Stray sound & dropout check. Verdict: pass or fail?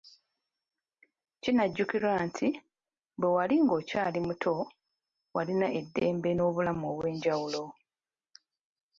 pass